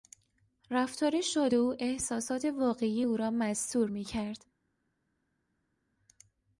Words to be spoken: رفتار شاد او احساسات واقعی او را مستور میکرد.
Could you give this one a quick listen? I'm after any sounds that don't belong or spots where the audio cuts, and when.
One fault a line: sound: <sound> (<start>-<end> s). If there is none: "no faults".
no faults